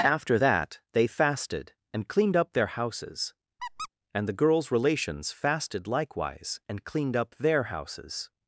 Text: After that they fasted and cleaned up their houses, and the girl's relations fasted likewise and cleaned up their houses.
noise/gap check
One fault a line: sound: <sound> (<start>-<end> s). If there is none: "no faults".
sound: squeak (3.6-3.9 s)